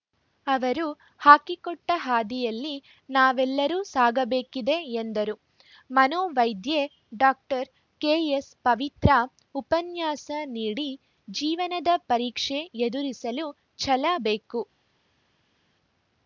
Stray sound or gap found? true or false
false